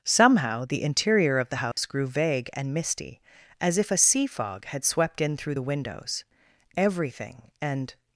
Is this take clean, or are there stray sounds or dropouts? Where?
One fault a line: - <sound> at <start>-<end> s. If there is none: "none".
- dropout at 1.7-1.8 s